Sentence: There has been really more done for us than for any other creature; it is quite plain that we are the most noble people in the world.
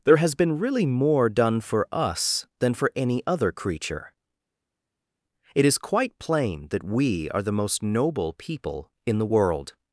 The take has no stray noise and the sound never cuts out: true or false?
true